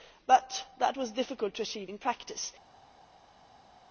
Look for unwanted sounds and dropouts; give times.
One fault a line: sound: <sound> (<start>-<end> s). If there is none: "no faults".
no faults